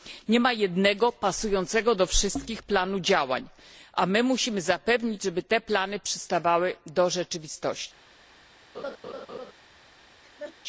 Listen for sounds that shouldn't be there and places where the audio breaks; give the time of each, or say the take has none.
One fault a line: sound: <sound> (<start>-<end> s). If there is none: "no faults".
sound: laugh (8.7-9.5 s)
sound: laugh (10.2-10.6 s)